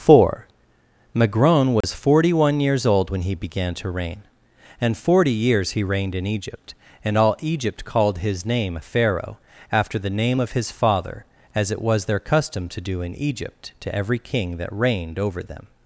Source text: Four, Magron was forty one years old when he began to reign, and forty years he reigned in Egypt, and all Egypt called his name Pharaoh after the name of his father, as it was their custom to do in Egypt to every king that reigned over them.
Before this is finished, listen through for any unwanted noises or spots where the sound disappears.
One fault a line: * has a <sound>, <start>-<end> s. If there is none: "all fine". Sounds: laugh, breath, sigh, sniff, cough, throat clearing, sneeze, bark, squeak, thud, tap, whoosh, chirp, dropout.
* has a dropout, 1.8-1.8 s